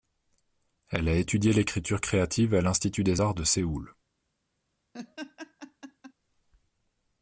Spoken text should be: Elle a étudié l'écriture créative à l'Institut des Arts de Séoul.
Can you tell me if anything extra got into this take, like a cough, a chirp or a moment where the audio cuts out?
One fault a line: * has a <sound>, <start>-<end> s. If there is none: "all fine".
* has a laugh, 4.9-6.1 s